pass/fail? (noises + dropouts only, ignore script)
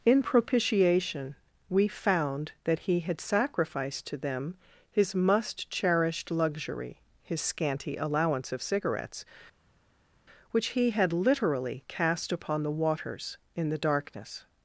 pass